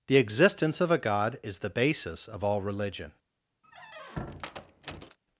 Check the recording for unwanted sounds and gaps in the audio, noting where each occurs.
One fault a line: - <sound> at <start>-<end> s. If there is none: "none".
- squeak at 3.6-5.2 s